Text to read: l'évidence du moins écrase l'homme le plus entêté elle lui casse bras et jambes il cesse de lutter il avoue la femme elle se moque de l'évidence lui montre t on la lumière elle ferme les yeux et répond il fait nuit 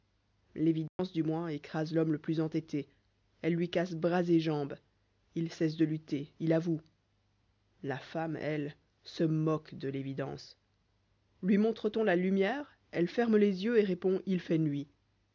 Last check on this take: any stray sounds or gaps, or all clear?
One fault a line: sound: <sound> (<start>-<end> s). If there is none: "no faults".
sound: dropout (0.9-1.0 s)